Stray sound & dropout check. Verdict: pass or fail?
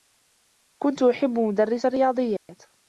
fail